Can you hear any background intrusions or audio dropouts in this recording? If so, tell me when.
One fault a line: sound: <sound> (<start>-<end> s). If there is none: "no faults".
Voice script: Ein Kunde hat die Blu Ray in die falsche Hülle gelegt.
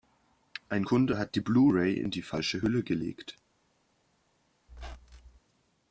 sound: squeak (4.7-5.4 s)